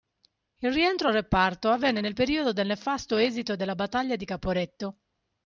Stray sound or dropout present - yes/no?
no